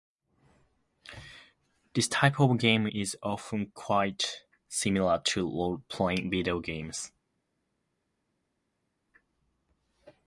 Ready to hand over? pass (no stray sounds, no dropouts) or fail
pass